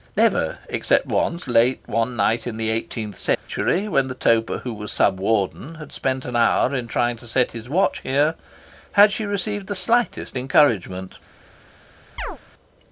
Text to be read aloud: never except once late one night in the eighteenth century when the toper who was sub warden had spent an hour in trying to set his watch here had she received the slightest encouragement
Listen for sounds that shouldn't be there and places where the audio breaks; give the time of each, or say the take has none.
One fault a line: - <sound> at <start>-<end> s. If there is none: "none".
- dropout at 3.3-3.5 s
- chirp at 12.2-12.4 s